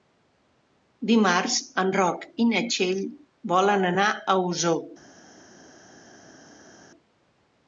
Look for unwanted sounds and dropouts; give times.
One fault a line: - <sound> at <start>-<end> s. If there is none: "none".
none